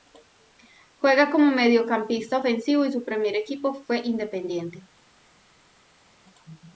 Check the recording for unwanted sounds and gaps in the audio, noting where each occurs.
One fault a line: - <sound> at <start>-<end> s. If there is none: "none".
none